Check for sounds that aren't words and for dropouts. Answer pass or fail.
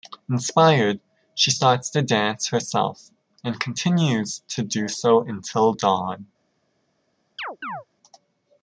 fail